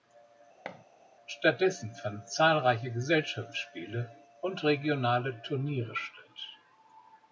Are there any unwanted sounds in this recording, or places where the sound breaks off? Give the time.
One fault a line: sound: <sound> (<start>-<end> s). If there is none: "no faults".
sound: thud (0.6-0.8 s)